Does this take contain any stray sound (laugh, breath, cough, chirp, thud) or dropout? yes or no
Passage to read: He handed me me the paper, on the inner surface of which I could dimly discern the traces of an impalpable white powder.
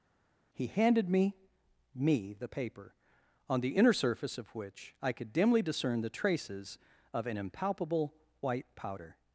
no